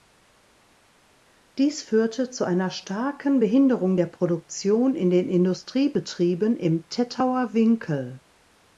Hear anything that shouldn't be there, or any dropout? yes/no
no